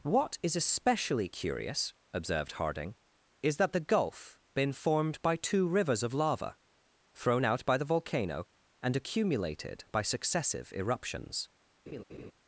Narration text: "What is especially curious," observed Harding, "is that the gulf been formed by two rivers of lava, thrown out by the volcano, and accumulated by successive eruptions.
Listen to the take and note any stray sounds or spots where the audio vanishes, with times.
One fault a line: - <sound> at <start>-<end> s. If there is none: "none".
- laugh at 11.9-12.3 s